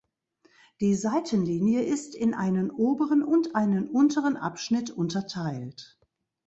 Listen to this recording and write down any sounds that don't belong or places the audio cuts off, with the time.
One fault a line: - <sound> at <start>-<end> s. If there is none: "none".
none